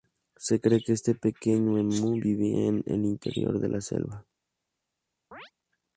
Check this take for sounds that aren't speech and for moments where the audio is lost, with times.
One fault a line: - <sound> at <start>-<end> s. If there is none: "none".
- chirp at 5.3-5.5 s